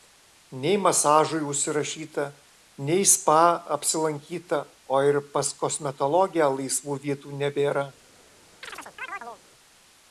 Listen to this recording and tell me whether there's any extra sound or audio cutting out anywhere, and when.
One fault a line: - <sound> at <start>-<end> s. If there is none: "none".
- chirp at 8.6-9.4 s